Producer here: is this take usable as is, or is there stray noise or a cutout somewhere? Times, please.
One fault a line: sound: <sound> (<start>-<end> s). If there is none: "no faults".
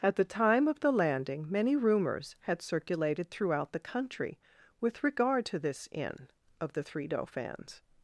no faults